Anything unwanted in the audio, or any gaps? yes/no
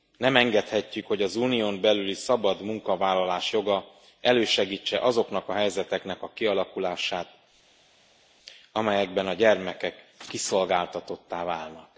no